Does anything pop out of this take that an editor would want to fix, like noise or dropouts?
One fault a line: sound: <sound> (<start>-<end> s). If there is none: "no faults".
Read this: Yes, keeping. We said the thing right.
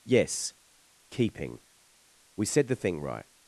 no faults